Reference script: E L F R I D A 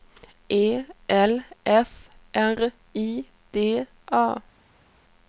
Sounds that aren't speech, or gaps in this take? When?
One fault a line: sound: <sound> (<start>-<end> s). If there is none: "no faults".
no faults